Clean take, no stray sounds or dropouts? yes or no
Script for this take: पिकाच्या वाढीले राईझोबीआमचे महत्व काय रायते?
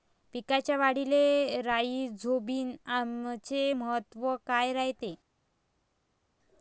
yes